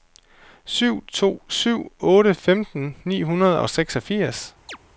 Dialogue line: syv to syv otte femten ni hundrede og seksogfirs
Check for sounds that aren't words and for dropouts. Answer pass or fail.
fail